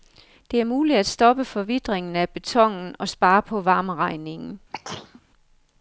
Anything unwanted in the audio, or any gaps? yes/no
yes